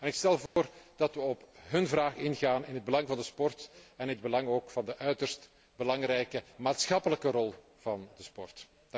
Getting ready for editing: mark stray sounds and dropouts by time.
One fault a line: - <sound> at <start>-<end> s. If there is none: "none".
- dropout at 0.5-0.6 s